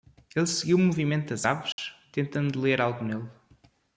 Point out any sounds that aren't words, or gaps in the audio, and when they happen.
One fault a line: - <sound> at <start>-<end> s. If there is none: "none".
- dropout at 1.7-1.8 s